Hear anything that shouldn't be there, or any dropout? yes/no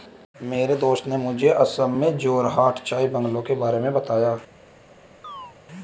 yes